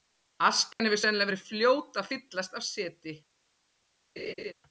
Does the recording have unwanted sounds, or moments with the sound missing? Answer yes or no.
yes